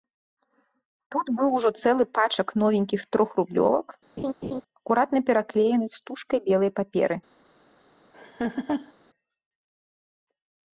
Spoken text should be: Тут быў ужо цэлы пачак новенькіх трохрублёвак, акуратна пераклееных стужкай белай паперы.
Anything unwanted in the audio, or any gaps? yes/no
yes